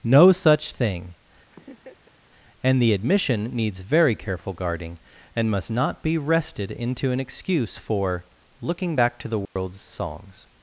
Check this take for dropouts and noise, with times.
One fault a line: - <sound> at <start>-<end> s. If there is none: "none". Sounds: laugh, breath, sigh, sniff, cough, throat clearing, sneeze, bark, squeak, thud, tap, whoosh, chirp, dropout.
- laugh at 1.5-2.2 s
- dropout at 9.5-9.6 s